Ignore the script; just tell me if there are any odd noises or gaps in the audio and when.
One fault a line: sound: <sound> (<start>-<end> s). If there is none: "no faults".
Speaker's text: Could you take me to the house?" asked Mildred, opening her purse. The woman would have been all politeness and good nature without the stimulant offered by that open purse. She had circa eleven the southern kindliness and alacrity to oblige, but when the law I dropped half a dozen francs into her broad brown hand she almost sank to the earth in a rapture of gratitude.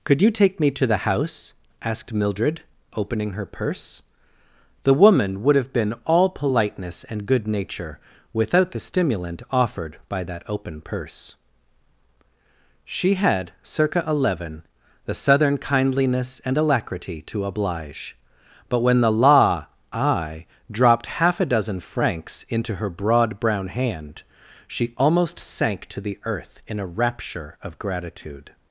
no faults